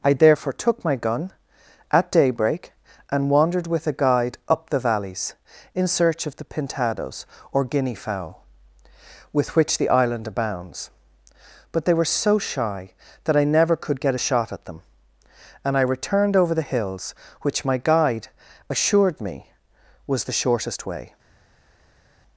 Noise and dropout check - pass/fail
pass